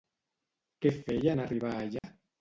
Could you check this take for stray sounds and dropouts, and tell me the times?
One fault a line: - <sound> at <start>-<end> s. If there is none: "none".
- dropout at 2.0-2.0 s